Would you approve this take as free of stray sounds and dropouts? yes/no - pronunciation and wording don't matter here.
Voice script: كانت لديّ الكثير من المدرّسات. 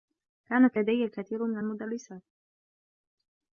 yes